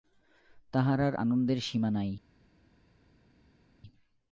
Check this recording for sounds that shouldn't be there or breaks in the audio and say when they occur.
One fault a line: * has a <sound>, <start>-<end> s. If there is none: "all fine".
all fine